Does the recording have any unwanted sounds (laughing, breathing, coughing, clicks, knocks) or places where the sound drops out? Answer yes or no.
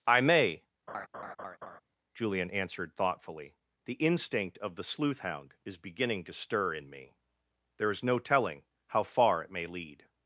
yes